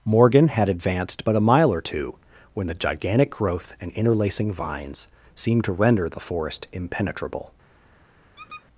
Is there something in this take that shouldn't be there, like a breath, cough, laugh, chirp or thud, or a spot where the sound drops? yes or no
yes